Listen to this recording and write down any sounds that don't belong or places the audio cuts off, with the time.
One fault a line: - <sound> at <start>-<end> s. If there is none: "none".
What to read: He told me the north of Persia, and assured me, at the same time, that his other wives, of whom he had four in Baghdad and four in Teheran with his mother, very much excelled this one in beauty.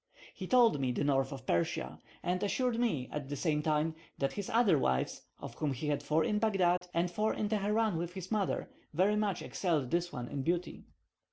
- dropout at 6.8-6.8 s